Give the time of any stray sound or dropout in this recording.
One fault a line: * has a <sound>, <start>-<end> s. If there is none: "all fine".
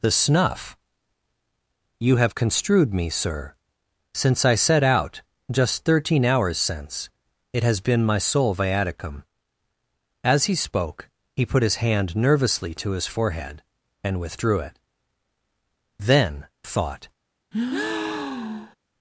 * has a breath, 17.5-18.8 s